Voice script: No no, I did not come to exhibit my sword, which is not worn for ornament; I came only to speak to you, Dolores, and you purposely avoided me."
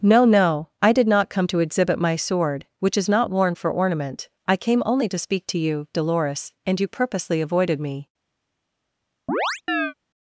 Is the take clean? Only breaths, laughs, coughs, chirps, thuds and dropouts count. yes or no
no